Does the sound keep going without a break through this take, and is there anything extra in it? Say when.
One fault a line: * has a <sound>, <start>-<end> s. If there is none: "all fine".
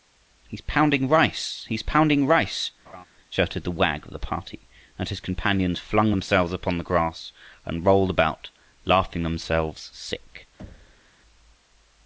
* has a laugh, 2.9-3.1 s
* has a thud, 10.6-11.1 s